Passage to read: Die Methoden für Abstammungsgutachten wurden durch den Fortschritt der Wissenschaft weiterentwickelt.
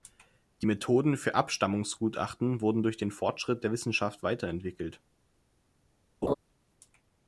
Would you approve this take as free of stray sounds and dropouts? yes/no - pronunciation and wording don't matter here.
no